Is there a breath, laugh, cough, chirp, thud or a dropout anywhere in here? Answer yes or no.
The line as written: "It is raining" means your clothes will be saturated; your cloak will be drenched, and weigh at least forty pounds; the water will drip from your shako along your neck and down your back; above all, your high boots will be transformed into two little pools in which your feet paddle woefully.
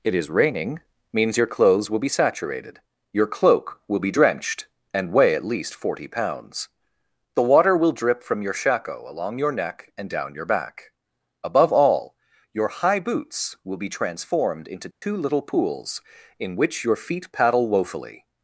yes